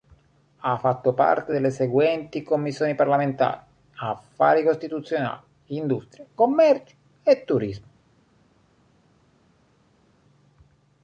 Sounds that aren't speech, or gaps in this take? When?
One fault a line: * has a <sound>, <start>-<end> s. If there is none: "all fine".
all fine